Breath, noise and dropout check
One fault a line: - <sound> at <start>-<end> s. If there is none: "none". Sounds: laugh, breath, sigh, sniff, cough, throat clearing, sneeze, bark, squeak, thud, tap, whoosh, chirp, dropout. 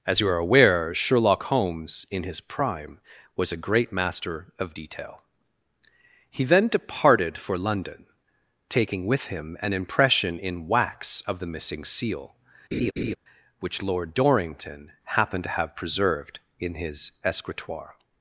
- laugh at 12.7-13.2 s